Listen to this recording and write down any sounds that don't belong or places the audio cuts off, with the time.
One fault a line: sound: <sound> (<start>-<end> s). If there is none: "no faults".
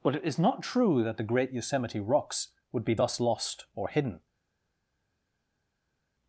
no faults